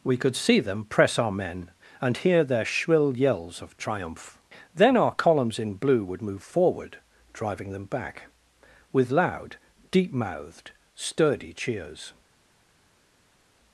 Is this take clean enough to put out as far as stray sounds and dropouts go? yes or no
yes